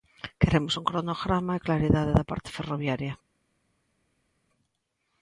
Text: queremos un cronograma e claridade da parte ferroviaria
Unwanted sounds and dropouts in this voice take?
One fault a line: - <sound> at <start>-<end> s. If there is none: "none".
none